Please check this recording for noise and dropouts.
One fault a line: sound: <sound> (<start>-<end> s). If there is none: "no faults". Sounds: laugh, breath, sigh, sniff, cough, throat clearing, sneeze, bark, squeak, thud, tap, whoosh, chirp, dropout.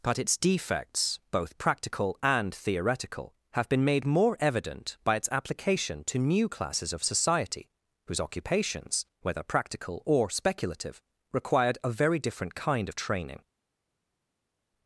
no faults